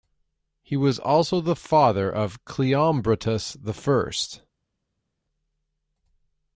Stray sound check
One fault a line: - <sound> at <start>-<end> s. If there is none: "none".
none